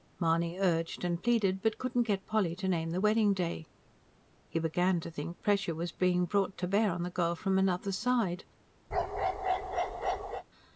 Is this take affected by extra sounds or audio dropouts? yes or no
yes